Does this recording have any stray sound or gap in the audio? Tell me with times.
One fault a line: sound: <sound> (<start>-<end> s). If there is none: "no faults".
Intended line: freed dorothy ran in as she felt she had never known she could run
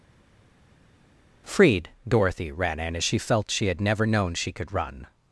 no faults